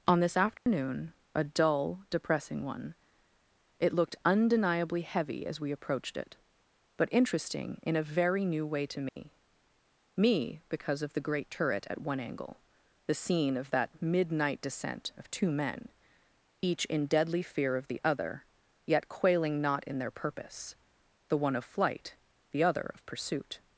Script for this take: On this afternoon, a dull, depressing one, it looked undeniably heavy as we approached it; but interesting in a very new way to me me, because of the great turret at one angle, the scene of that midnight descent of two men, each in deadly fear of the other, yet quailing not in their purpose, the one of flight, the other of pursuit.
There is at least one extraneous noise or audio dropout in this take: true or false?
true